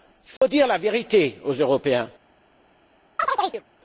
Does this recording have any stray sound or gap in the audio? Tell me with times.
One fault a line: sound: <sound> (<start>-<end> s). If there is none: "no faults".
sound: dropout (0.4-0.4 s)
sound: chirp (3.2-3.6 s)